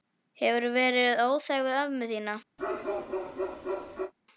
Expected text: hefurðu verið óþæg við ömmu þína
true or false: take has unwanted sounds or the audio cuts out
true